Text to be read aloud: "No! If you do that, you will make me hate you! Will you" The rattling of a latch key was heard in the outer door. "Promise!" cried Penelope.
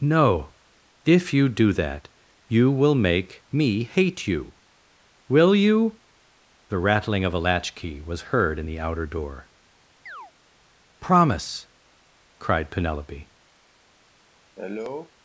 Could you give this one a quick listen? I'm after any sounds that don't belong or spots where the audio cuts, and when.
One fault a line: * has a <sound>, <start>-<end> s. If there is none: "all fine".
* has a chirp, 10.1-10.3 s
* has a cough, 14.6-15.1 s